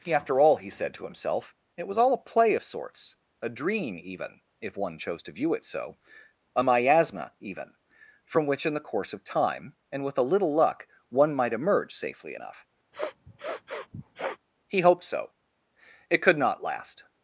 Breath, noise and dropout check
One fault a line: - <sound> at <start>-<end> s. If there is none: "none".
- sniff at 12.9-14.4 s